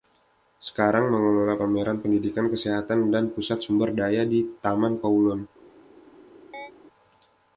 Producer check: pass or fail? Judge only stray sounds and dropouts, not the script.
fail